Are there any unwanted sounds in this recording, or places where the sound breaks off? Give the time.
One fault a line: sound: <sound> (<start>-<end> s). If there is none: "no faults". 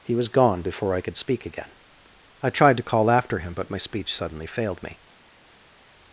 no faults